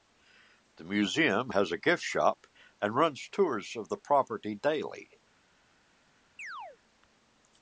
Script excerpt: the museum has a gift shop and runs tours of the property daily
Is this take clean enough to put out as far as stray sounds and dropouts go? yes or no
no